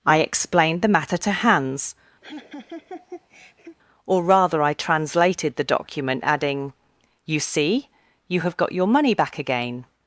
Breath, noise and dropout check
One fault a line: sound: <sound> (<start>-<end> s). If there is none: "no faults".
sound: laugh (2.2-3.8 s)